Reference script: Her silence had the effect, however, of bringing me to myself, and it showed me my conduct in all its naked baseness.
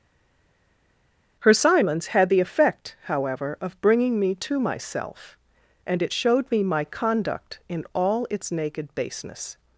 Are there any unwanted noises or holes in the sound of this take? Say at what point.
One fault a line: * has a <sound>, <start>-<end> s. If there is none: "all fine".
all fine